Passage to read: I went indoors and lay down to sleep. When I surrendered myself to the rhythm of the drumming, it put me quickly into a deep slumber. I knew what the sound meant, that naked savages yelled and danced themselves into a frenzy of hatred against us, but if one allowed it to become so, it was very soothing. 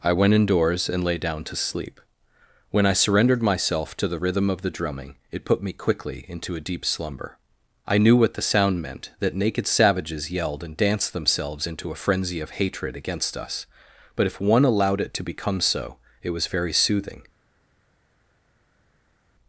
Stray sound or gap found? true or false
false